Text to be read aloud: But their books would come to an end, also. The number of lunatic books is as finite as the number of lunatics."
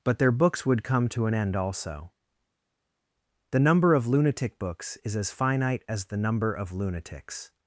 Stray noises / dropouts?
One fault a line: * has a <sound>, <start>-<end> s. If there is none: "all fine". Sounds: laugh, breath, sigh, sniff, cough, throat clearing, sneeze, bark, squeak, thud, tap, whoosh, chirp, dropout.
all fine